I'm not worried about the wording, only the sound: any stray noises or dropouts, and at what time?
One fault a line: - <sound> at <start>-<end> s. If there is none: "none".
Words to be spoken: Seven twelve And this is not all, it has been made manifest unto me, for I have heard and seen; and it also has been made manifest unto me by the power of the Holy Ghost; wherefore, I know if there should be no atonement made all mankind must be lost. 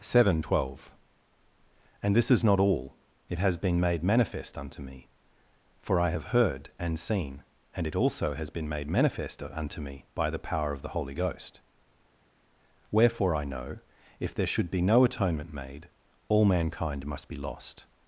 none